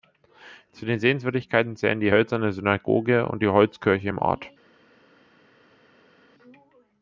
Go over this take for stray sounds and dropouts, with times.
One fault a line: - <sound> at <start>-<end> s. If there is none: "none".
none